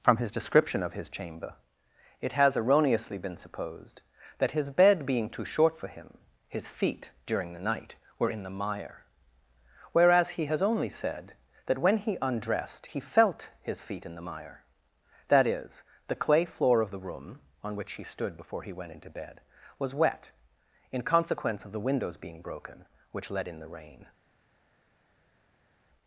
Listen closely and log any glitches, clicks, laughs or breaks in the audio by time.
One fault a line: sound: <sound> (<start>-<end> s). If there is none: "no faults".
no faults